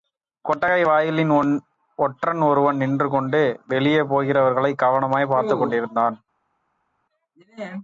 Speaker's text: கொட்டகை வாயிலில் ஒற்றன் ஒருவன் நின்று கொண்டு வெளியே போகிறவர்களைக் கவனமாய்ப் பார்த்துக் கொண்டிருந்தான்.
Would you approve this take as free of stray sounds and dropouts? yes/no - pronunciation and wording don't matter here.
yes